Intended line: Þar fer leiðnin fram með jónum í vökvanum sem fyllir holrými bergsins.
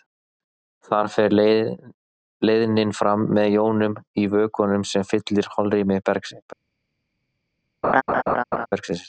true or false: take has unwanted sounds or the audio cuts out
true